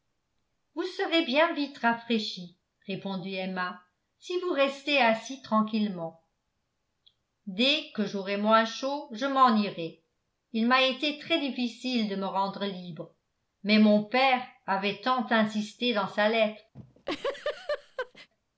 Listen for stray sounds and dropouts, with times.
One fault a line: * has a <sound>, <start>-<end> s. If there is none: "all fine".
* has a laugh, 16.7-18.3 s